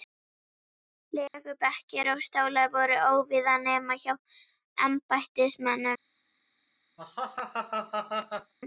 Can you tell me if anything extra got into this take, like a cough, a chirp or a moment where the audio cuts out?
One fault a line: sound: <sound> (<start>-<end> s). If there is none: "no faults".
sound: dropout (1.3-1.3 s)
sound: laugh (7.0-8.5 s)